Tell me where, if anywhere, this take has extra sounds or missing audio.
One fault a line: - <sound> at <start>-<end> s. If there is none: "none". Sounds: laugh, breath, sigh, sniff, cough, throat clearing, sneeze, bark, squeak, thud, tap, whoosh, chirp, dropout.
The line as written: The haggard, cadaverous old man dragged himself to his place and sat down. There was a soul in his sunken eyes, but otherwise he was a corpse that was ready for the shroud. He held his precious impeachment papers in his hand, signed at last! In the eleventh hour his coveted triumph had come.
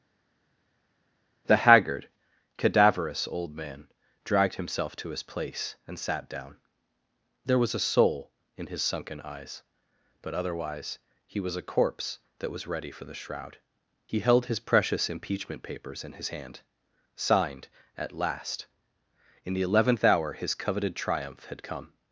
none